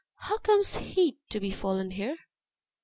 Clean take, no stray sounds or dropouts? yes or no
yes